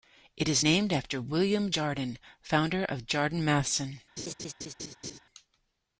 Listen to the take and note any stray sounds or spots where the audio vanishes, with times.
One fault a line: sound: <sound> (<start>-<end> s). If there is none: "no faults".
sound: laugh (4.2-5.2 s)